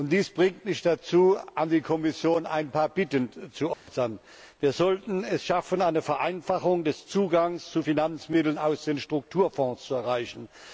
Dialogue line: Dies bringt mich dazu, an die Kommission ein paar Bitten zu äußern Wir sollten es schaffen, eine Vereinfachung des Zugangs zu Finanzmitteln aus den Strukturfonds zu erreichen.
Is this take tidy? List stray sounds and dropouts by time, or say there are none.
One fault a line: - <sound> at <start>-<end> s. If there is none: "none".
- dropout at 3.7-3.9 s